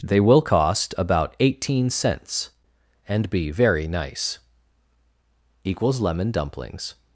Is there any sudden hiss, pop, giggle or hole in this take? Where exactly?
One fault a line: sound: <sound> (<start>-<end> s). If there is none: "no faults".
no faults